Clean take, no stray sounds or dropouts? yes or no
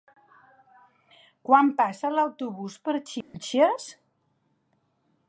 no